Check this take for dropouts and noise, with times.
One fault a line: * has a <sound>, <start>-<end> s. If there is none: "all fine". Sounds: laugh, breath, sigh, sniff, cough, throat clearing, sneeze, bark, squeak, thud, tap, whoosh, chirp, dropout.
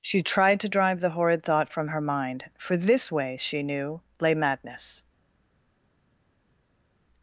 all fine